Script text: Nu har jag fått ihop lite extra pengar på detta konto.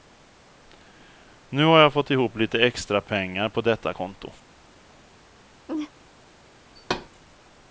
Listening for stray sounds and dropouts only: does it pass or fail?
fail